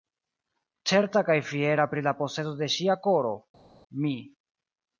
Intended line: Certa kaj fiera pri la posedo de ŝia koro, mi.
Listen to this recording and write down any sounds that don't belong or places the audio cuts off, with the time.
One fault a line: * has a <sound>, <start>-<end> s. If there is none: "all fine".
all fine